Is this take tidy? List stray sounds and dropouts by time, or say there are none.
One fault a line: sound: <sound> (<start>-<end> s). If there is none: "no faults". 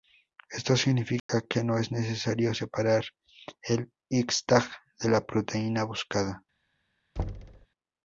sound: dropout (1.2-1.3 s)
sound: thud (7.2-7.7 s)